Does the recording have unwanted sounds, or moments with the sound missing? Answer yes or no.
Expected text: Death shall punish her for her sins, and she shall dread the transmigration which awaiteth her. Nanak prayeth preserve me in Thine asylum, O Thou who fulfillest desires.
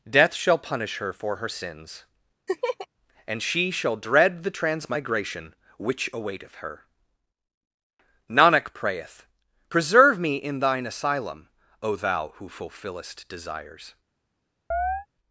yes